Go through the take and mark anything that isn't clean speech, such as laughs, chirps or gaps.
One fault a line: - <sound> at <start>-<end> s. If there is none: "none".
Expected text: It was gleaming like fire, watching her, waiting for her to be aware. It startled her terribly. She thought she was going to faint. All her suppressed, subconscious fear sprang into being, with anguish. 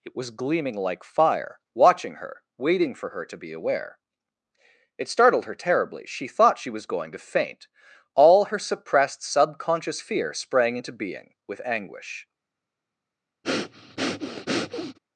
- breath at 13.4-15.0 s